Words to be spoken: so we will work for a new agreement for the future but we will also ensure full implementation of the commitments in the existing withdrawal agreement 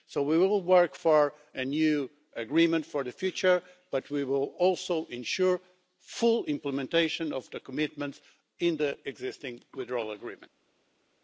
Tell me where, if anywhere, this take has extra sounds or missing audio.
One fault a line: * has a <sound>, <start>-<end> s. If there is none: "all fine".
all fine